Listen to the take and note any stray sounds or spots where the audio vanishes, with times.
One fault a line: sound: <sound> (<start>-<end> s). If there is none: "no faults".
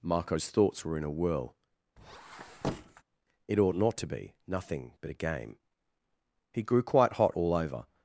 sound: squeak (2.0-3.0 s)